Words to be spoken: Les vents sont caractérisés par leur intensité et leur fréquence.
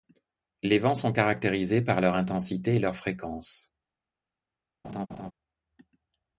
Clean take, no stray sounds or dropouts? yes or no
no